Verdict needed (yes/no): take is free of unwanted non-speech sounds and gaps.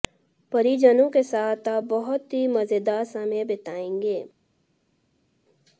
yes